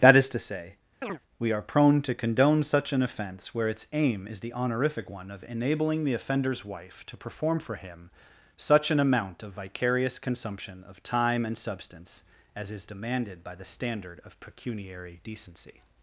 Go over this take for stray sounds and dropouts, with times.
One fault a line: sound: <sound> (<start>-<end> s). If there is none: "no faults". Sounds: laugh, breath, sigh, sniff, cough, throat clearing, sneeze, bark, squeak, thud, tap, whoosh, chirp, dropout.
sound: chirp (1.0-1.2 s)